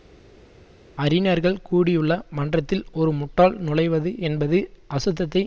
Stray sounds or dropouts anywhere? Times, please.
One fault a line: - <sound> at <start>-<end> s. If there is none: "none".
none